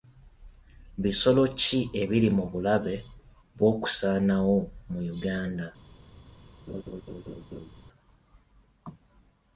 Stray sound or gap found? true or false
true